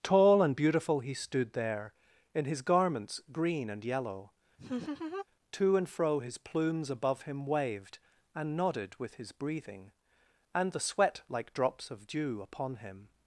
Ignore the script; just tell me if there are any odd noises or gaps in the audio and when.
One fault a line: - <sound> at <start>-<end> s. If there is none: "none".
- laugh at 4.6-5.3 s